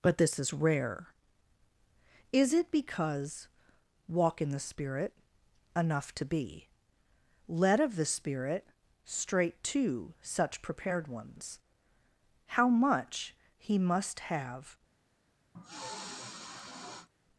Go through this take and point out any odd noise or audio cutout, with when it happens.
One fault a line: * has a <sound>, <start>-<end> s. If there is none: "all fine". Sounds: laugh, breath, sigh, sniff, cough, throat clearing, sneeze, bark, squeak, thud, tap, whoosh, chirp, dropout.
* has a sniff, 15.5-17.1 s